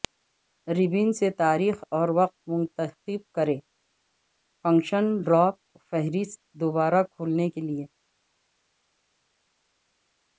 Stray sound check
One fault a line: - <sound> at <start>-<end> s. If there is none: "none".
none